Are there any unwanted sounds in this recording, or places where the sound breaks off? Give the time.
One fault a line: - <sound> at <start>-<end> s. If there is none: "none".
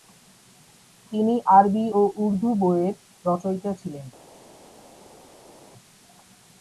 none